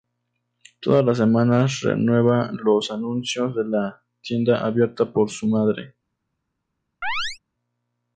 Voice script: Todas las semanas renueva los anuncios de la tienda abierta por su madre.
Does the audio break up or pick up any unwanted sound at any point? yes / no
yes